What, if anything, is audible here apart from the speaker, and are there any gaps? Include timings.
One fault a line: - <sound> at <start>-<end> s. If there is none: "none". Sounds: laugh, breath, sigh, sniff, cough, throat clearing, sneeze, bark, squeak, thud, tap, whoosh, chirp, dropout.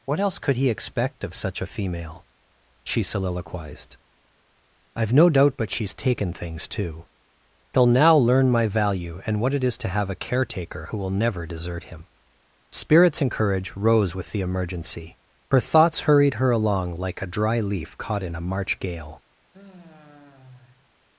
- sigh at 19.5-20.9 s